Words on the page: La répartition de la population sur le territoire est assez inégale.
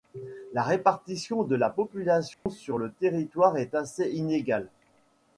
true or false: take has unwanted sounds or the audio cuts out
true